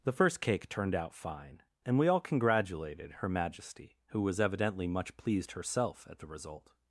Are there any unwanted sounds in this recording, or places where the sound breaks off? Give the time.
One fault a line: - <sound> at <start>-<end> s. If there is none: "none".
none